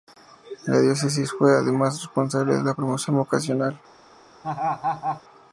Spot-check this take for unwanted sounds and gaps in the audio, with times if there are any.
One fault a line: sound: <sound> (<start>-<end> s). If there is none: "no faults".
sound: laugh (4.4-5.2 s)